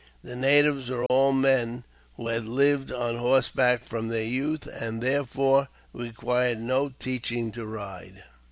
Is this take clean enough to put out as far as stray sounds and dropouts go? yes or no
no